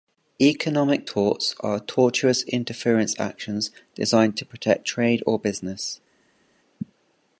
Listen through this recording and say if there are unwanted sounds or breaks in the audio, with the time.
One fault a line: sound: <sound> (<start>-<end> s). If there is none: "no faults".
no faults